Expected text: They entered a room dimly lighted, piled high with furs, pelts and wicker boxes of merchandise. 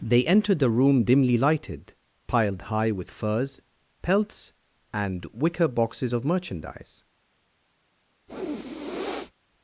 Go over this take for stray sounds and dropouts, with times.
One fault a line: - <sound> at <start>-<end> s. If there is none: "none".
- sniff at 8.3-9.3 s